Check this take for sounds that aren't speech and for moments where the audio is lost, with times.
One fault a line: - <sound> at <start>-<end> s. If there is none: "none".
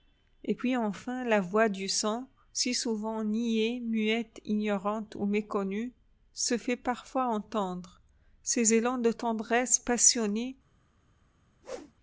- whoosh at 11.6-11.9 s